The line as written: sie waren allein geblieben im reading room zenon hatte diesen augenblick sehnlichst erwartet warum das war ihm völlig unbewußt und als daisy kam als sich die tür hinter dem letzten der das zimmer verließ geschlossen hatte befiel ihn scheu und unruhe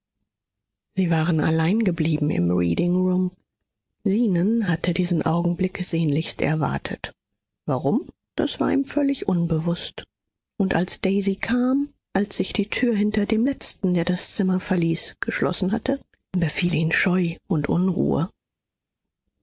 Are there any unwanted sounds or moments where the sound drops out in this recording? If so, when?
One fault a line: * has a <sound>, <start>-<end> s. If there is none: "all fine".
all fine